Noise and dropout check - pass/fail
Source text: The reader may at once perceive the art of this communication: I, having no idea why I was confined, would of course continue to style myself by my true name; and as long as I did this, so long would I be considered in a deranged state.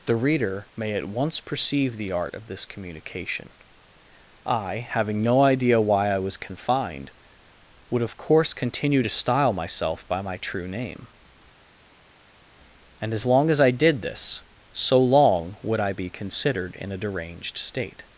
pass